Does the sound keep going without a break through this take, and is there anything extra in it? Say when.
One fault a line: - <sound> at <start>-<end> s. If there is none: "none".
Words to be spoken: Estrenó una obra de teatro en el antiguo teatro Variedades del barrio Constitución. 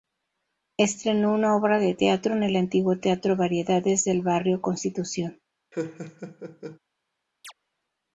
- laugh at 5.7-6.8 s
- chirp at 7.4-7.5 s